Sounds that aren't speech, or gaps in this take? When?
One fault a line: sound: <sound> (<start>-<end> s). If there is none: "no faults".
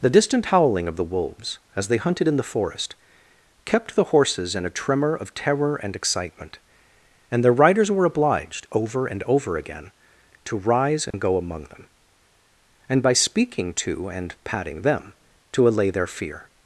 sound: dropout (11.1-11.1 s)